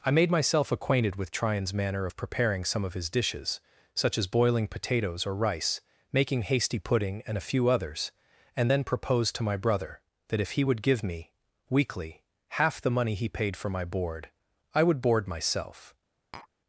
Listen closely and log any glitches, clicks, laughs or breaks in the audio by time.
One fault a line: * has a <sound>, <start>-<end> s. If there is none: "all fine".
* has a tap, 16.3-16.5 s